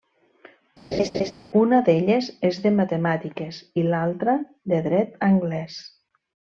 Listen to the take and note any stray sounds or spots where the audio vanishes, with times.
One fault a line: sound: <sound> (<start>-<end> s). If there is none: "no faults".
sound: laugh (0.9-1.3 s)